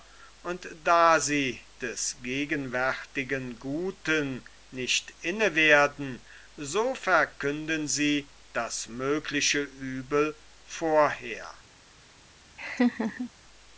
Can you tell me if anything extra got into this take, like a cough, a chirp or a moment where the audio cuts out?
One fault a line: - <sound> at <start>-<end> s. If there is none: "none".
- laugh at 12.6-13.3 s